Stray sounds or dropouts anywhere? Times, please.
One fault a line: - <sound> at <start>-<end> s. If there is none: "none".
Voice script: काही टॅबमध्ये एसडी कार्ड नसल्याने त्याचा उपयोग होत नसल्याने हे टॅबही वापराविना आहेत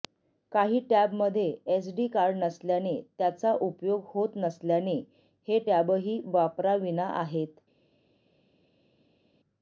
none